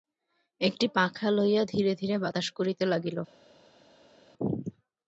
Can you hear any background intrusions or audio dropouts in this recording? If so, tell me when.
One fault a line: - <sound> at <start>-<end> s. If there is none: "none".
none